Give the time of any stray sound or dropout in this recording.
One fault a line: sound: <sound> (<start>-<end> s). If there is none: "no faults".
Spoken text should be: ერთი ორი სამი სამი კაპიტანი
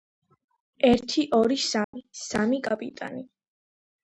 sound: dropout (1.8-1.9 s)